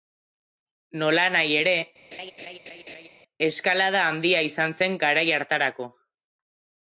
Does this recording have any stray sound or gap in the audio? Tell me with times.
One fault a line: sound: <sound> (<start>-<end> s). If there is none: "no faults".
sound: laugh (2.1-3.1 s)